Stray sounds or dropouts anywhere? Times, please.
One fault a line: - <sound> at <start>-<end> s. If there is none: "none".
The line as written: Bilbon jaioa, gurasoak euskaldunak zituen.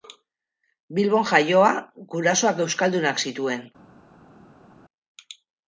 none